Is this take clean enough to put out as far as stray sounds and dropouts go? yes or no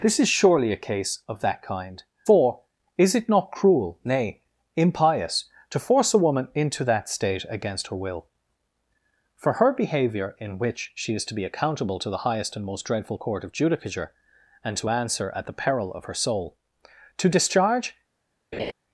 no